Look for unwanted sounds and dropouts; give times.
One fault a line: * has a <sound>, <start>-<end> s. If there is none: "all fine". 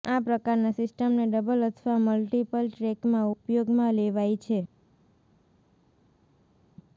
all fine